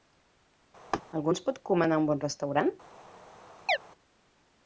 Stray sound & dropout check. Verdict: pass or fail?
fail